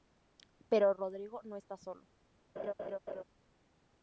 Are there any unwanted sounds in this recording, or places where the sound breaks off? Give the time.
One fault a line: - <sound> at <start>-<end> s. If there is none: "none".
- laugh at 2.6-3.2 s